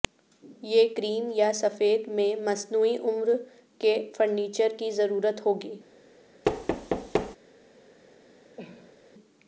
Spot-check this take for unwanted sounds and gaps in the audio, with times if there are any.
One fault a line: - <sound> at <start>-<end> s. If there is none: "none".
- thud at 6.4-7.4 s
- cough at 8.6-9.0 s